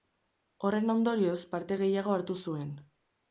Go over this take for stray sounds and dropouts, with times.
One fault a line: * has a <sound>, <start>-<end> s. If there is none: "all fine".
all fine